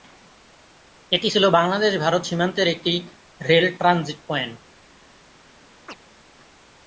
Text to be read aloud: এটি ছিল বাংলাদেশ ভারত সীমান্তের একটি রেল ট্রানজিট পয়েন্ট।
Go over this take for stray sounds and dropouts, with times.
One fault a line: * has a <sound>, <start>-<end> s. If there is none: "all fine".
* has a chirp, 5.9-6.0 s